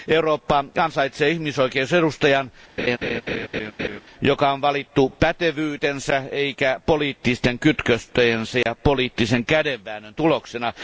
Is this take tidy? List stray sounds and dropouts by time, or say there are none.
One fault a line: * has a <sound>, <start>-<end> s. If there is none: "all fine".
* has a laugh, 2.8-4.0 s
* has a dropout, 8.6-8.7 s